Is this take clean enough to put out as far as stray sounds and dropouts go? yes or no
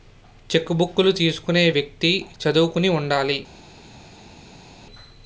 yes